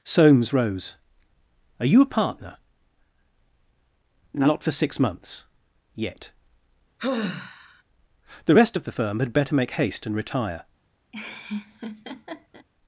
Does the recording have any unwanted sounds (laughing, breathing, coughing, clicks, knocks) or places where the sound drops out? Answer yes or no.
yes